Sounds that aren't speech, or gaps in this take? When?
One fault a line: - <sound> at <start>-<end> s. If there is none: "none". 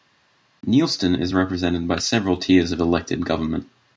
none